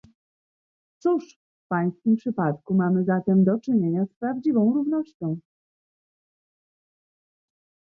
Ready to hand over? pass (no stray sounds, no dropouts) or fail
pass